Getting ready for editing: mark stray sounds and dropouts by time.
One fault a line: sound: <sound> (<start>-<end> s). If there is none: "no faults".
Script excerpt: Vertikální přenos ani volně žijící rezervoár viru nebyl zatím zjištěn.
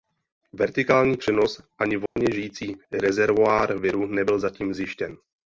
sound: dropout (2.1-2.2 s)